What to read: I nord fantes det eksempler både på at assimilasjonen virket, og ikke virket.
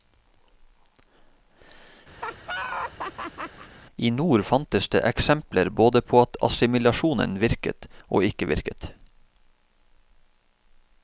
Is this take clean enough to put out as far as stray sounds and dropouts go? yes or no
no